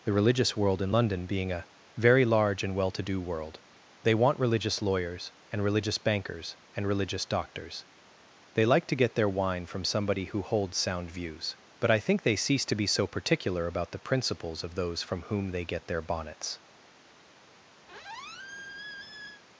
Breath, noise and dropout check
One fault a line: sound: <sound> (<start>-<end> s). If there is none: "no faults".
sound: squeak (17.9-19.4 s)